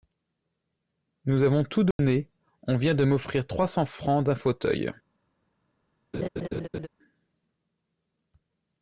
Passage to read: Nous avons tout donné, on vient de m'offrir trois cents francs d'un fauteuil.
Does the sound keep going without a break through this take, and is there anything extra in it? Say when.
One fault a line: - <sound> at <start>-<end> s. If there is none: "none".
- dropout at 1.9-2.0 s
- laugh at 6.1-6.9 s